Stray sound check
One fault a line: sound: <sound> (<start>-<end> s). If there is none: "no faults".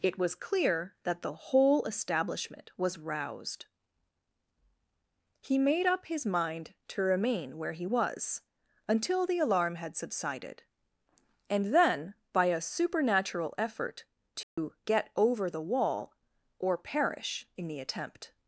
sound: dropout (14.4-14.6 s)